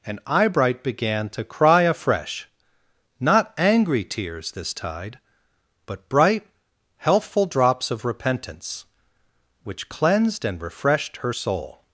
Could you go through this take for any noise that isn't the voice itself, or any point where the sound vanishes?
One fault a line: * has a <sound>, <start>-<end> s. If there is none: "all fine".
all fine